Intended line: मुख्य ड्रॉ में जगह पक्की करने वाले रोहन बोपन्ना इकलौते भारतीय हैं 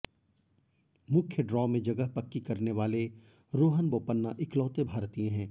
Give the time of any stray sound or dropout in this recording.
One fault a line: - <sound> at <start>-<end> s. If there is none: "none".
none